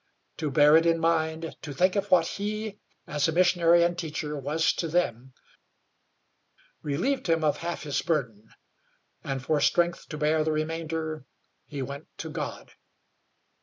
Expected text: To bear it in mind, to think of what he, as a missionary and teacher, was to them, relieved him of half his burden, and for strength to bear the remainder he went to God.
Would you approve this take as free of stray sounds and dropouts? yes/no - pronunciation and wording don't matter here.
yes